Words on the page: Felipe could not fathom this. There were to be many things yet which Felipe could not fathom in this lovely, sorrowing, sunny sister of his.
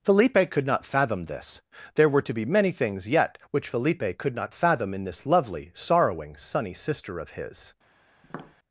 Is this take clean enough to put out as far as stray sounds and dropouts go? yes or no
no